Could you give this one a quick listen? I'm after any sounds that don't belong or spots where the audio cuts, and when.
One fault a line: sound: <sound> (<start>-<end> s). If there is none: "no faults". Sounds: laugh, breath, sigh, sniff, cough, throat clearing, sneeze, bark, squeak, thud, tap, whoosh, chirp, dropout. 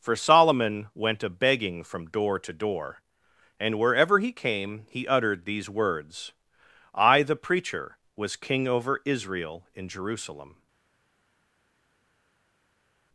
no faults